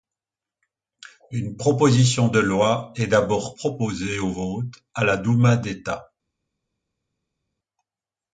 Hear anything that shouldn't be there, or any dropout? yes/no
no